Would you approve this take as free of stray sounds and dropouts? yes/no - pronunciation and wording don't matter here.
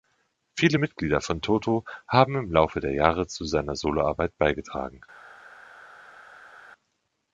yes